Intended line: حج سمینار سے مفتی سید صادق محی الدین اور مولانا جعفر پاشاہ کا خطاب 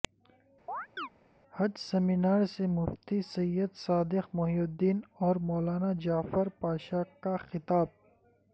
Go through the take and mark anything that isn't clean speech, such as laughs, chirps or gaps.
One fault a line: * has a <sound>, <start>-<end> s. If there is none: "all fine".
* has a chirp, 0.7-1.1 s